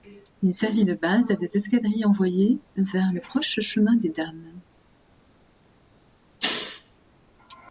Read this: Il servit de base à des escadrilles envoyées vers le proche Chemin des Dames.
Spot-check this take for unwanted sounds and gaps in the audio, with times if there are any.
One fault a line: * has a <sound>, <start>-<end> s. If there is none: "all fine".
all fine